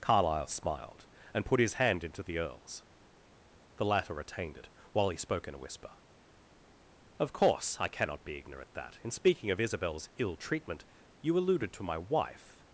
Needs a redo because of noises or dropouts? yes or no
no